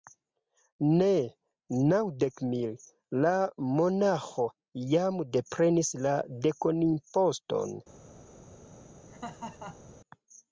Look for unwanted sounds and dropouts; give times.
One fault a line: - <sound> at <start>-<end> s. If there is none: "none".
- laugh at 9.1-9.9 s